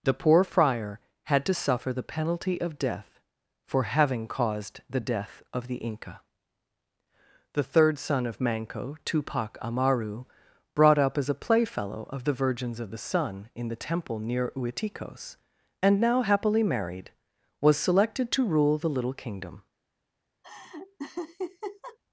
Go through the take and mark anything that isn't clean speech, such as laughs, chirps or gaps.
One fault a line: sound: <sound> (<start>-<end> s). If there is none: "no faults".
sound: laugh (20.4-22.0 s)